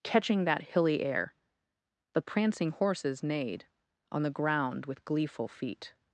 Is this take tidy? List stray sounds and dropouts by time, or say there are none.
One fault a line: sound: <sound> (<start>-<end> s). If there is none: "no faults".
no faults